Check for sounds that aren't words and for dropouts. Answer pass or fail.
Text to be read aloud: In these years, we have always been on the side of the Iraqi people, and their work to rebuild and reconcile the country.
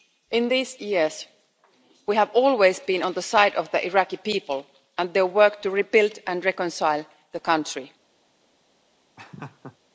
fail